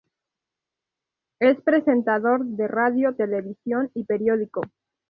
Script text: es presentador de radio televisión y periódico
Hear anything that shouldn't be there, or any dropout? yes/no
no